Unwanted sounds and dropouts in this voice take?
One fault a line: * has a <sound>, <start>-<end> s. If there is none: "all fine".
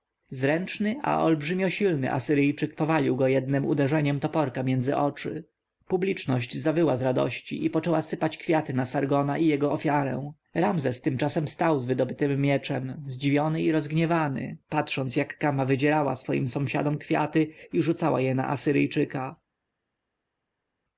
all fine